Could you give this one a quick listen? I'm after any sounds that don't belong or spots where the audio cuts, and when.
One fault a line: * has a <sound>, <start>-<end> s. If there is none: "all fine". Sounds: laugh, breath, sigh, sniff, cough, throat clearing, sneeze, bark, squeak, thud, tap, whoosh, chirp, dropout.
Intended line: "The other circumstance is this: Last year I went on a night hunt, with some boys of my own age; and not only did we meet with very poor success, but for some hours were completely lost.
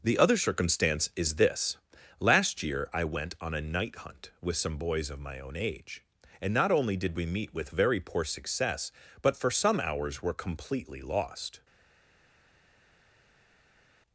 all fine